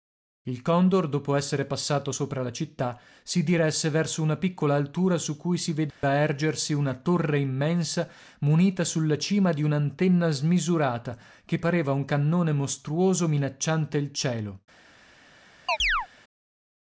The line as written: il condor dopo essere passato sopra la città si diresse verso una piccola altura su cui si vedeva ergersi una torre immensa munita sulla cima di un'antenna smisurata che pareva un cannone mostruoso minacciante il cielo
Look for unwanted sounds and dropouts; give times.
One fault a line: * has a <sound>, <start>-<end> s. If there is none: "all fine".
* has a dropout, 5.9-6.0 s
* has a chirp, 15.7-16.1 s